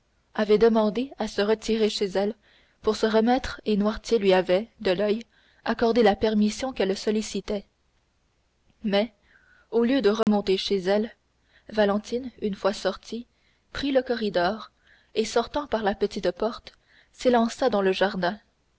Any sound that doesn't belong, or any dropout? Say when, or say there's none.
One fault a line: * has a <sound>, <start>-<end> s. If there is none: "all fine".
* has a dropout, 10.2-10.3 s